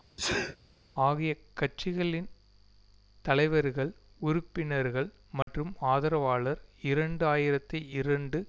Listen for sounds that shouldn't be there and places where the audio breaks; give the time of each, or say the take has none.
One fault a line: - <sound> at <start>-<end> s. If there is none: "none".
- sneeze at 0.2-0.6 s
- dropout at 5.4-5.5 s